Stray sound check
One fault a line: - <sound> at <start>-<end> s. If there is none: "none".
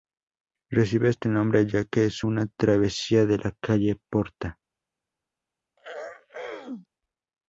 - throat clearing at 5.8-6.9 s